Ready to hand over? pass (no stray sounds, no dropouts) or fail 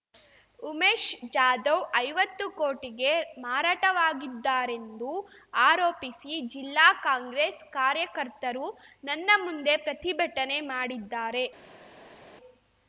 pass